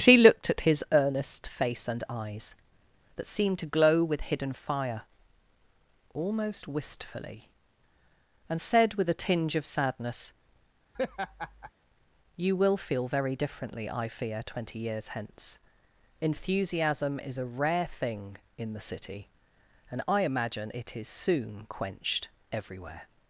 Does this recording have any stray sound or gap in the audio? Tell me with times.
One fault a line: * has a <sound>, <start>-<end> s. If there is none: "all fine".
* has a laugh, 10.9-11.7 s